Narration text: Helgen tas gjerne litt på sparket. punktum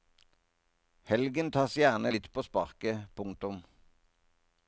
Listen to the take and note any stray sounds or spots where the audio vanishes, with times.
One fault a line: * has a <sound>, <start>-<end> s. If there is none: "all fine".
all fine